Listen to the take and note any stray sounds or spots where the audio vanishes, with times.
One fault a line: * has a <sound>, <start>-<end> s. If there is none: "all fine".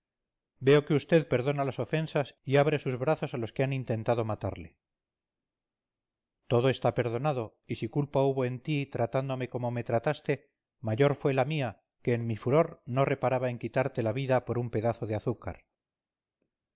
all fine